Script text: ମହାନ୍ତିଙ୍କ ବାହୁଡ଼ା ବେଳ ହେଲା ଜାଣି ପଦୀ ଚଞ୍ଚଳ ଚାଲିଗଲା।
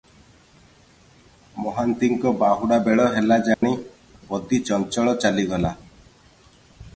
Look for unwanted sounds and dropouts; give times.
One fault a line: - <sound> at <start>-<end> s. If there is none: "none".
- dropout at 3.5-3.6 s